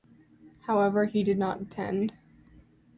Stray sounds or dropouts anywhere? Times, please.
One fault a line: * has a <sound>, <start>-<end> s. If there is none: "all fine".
all fine